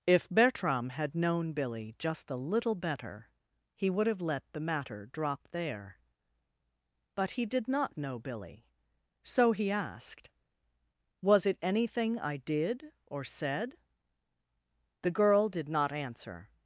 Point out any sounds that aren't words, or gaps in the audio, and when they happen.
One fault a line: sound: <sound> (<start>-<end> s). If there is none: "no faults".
no faults